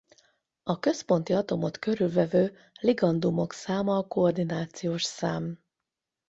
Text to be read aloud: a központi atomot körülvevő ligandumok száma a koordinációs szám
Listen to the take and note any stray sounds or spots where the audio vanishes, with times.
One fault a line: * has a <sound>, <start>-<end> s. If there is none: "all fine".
all fine